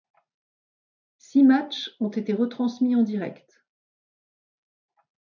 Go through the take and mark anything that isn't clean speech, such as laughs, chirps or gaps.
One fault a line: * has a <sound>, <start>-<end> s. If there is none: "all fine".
all fine